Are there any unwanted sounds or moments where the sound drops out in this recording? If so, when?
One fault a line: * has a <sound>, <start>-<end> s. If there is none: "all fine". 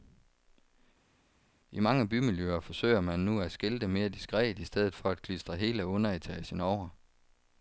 all fine